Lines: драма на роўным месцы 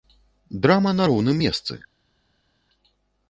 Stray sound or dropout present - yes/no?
no